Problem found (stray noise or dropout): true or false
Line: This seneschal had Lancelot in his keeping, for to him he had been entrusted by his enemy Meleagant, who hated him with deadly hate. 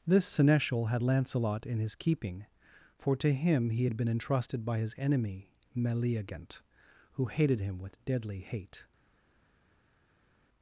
false